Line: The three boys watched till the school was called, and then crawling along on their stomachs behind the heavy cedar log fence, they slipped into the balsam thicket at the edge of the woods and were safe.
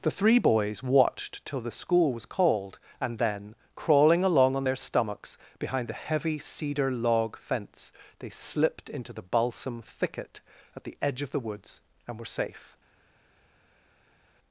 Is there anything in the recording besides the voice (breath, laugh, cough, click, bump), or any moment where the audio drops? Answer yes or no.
no